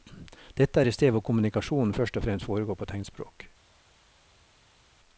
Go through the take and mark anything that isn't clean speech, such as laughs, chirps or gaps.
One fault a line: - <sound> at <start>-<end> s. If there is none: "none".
none